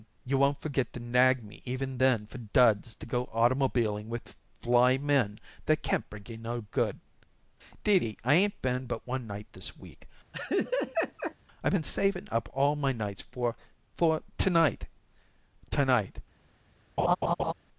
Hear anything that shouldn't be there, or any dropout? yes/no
yes